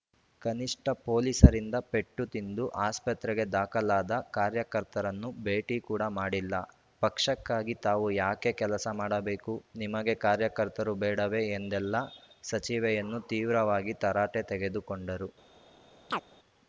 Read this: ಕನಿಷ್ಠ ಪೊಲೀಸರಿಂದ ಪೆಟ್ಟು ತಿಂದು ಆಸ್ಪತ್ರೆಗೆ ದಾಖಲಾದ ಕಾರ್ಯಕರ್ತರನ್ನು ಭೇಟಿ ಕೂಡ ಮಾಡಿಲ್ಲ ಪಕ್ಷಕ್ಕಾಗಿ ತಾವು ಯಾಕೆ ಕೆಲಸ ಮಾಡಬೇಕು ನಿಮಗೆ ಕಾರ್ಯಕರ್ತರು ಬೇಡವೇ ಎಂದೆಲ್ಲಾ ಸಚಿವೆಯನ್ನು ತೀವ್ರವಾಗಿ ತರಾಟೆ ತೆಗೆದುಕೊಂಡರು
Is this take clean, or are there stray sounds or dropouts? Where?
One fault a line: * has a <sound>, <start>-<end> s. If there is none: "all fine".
* has a chirp, 16.1-16.2 s